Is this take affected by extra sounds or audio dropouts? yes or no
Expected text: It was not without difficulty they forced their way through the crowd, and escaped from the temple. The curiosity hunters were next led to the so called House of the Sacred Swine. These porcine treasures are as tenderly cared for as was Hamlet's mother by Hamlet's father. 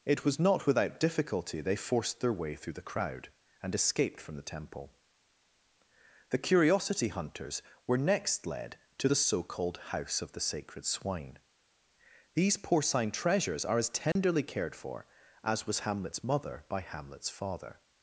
yes